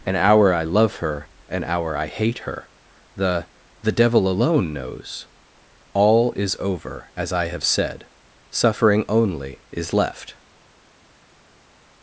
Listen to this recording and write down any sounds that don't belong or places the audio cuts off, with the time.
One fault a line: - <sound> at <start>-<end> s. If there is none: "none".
none